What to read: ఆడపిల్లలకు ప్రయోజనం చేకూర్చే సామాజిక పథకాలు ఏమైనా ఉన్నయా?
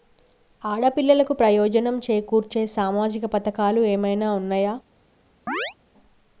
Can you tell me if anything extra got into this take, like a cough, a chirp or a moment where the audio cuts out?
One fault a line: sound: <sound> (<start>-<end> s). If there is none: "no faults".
sound: chirp (5.5-5.7 s)